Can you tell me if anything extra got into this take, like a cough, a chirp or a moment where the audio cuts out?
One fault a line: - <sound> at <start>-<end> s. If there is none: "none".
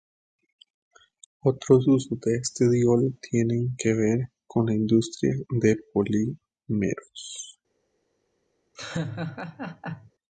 - laugh at 8.8-10.1 s